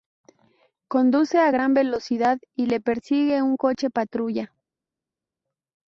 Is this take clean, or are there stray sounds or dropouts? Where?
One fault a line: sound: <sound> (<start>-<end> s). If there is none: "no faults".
no faults